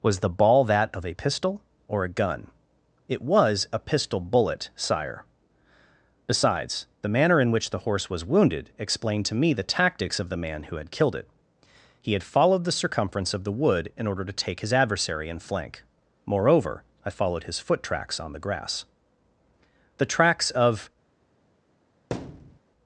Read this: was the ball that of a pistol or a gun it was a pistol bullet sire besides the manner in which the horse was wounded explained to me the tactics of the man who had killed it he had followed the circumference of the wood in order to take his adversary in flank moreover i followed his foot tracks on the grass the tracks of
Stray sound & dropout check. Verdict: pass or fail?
fail